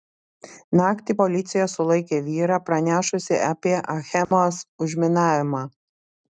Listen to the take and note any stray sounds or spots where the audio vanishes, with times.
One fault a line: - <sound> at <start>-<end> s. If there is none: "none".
- dropout at 4.2-4.3 s